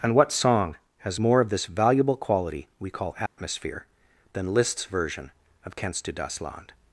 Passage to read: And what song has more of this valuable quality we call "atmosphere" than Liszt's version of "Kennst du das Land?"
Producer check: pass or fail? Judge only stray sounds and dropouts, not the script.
fail